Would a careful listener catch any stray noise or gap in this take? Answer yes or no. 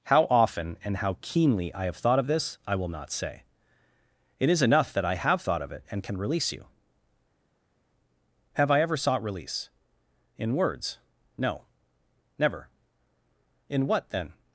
no